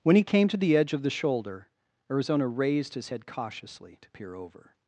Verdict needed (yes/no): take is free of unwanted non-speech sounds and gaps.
yes